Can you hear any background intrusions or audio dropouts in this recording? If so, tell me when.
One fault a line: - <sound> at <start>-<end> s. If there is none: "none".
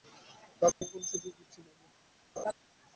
- dropout at 0.7-0.8 s
- laugh at 2.4-2.5 s